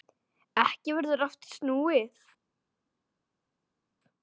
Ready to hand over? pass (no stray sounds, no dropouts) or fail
pass